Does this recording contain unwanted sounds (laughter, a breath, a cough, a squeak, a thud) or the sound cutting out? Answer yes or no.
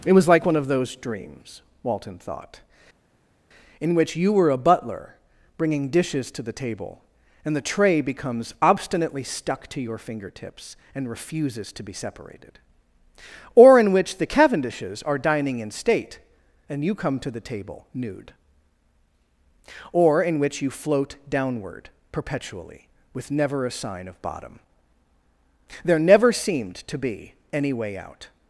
no